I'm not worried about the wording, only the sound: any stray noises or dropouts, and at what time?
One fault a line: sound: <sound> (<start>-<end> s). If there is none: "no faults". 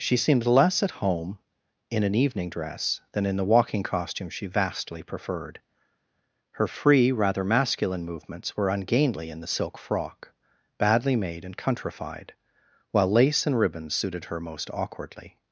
no faults